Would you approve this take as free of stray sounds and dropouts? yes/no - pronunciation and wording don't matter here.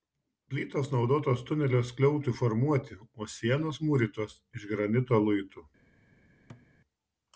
no